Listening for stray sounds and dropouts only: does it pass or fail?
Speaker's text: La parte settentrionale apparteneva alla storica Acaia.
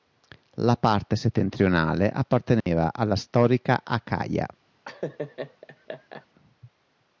fail